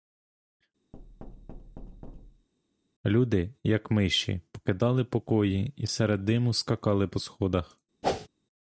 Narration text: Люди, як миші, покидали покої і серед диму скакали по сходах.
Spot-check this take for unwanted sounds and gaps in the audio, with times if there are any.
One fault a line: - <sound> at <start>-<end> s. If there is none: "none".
- thud at 0.9-2.5 s
- whoosh at 8.0-8.3 s